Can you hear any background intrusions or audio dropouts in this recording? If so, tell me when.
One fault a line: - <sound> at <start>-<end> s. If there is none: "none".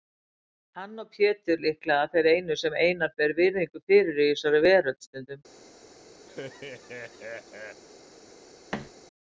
- laugh at 6.3-7.8 s
- thud at 8.7-8.9 s